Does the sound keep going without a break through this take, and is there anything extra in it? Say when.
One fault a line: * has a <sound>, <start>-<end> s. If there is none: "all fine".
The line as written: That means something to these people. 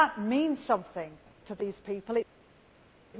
all fine